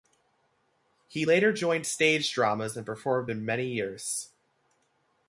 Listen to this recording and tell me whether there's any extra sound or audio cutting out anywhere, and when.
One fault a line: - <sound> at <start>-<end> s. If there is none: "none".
none